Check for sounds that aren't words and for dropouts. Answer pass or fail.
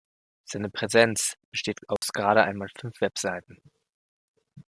fail